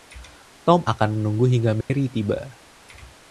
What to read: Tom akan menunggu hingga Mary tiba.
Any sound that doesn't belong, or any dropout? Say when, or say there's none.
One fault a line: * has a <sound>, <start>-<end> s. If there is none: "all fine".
* has a dropout, 1.8-1.9 s